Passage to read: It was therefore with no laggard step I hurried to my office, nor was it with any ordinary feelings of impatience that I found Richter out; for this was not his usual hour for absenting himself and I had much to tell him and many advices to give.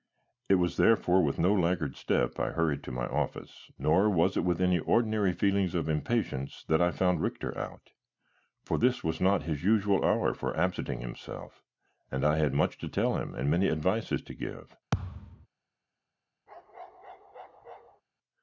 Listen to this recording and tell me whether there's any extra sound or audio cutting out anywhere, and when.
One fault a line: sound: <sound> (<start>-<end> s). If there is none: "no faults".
sound: thud (14.9-15.5 s)
sound: bark (16.5-18.0 s)